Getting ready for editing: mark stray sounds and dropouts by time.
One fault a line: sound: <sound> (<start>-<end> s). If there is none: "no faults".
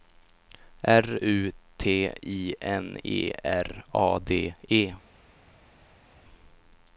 no faults